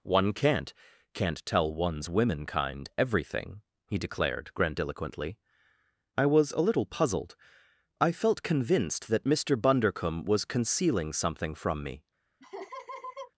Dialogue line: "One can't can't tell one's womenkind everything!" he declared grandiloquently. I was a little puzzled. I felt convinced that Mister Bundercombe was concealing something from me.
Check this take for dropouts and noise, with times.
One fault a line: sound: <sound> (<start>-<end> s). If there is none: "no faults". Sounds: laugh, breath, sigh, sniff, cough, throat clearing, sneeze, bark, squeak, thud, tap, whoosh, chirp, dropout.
sound: laugh (12.4-13.3 s)